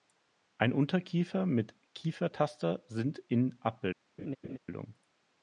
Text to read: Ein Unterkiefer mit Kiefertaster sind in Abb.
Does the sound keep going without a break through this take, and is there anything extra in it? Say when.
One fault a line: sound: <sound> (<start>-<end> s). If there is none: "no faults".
sound: laugh (4.2-4.6 s)